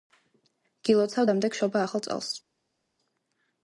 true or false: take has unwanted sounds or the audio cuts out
false